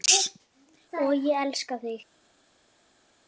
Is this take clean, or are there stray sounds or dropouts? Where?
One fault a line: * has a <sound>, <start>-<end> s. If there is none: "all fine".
all fine